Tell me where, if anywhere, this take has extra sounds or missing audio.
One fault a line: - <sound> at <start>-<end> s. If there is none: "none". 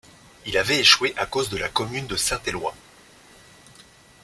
none